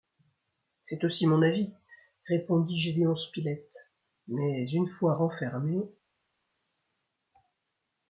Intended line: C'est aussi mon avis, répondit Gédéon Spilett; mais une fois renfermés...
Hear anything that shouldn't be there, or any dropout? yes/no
no